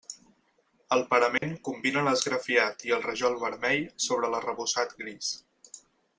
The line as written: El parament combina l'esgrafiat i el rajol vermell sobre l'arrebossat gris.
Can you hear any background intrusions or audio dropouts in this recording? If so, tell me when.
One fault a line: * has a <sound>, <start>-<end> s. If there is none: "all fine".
* has a dropout, 1.4-1.4 s